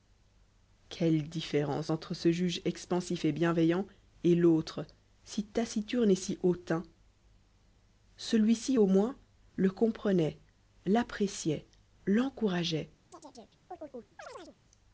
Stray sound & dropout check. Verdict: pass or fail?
fail